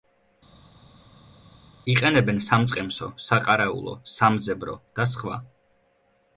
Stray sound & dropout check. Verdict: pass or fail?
pass